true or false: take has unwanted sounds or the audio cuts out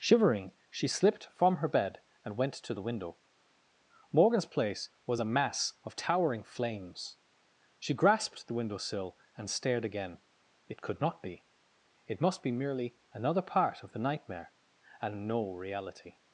false